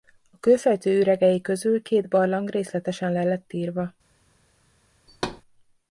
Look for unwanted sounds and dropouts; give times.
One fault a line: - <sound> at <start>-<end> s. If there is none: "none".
- thud at 5.1-5.4 s